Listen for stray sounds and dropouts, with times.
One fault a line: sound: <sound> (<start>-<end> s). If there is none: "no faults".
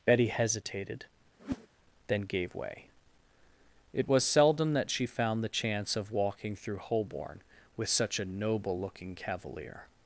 sound: whoosh (1.4-1.7 s)